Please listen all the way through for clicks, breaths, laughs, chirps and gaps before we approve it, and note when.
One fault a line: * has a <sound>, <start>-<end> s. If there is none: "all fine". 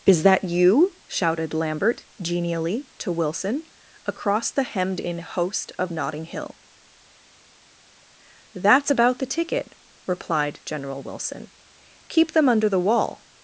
all fine